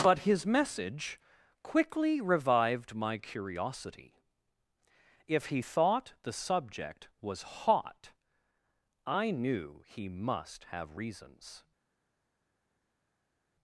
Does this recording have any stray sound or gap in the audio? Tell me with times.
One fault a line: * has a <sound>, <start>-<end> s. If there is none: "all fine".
all fine